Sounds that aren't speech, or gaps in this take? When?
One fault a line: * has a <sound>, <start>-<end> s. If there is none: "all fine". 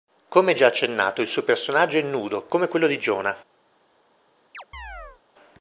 * has a chirp, 4.5-5.2 s